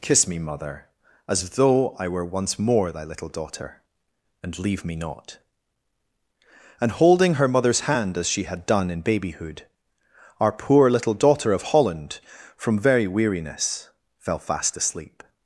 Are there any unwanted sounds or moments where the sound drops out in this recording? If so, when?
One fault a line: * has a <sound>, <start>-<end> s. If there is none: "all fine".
all fine